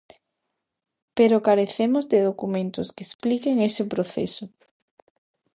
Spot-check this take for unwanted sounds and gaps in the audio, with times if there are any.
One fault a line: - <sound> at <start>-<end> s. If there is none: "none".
none